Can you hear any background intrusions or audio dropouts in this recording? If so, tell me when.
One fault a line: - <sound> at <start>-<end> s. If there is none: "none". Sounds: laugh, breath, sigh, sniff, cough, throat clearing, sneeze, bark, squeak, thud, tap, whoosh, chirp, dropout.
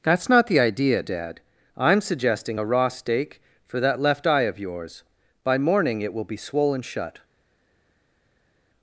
none